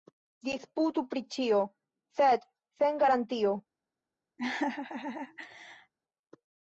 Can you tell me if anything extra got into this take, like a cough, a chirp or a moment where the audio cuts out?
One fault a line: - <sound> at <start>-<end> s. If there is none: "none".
- laugh at 4.4-5.9 s